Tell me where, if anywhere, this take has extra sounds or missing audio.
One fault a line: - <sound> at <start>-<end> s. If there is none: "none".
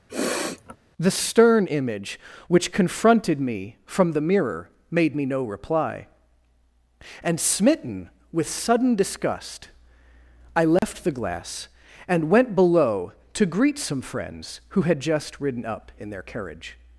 - sniff at 0.1-0.8 s
- dropout at 10.8-10.8 s